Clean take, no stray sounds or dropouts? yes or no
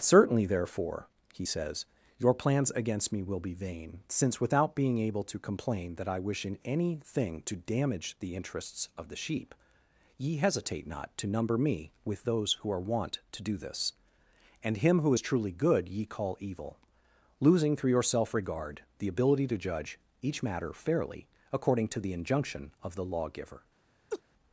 no